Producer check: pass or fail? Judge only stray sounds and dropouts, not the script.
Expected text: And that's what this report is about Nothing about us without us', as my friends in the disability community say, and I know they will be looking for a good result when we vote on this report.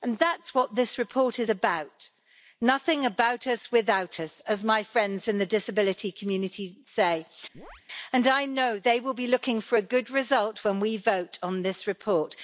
fail